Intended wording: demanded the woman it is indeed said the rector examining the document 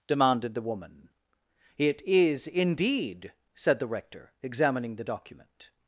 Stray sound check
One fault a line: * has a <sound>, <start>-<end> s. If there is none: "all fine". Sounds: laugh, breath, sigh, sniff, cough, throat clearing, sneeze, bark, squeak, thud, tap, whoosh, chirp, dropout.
all fine